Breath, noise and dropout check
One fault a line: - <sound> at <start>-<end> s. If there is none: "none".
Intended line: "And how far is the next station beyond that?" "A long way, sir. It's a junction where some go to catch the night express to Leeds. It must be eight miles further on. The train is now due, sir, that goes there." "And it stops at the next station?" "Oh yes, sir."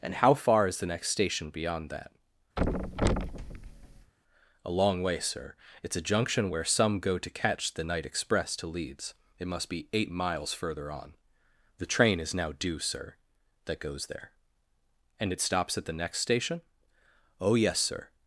- thud at 2.6-4.1 s